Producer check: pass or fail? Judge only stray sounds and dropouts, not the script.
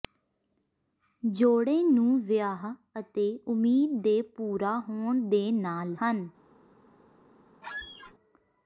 fail